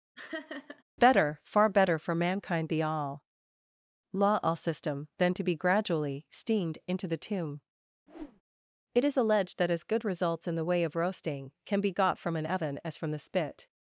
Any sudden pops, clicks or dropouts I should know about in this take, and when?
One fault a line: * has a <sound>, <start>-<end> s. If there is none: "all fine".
* has a laugh, 0.2-0.8 s
* has a whoosh, 8.1-8.4 s